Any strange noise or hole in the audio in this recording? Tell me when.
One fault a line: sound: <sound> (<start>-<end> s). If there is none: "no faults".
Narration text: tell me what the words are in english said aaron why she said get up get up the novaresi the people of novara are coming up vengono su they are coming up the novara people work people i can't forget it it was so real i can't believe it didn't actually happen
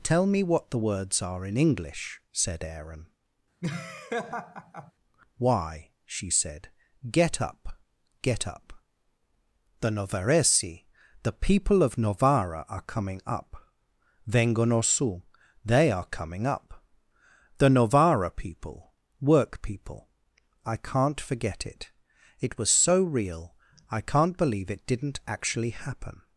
sound: laugh (3.6-4.9 s)